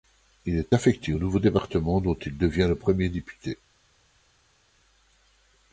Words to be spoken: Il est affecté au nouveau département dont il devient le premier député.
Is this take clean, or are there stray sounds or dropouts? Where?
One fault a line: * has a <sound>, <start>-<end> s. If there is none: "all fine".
all fine